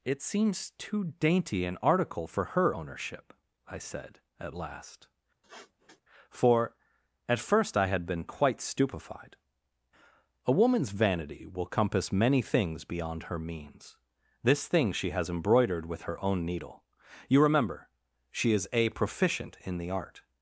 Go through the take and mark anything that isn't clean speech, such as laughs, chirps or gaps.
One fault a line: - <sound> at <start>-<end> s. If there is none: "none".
- sniff at 5.4-6.0 s